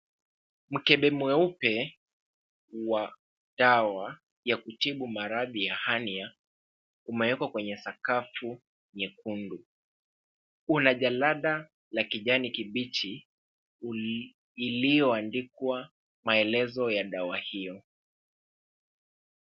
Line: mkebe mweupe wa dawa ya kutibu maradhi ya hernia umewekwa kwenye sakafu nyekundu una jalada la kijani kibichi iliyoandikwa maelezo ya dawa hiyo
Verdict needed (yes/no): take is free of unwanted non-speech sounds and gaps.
yes